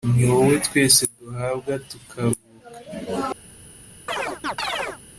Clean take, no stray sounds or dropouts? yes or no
no